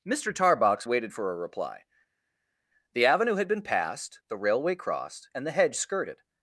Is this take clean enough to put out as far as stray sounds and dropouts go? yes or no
yes